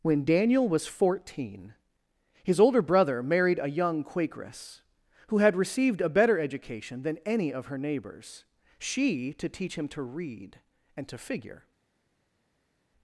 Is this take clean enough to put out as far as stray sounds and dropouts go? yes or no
yes